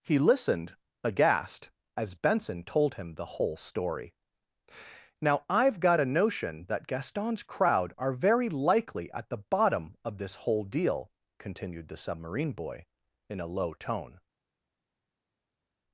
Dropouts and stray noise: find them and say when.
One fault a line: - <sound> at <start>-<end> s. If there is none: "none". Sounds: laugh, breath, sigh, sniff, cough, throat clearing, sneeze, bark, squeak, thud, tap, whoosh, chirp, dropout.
none